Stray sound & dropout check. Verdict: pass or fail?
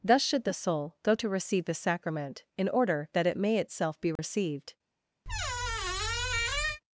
fail